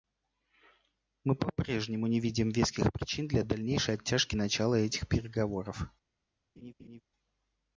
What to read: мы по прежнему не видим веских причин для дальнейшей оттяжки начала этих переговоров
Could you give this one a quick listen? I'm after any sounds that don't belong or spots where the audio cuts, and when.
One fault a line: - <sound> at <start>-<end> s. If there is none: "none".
- laugh at 6.6-7.0 s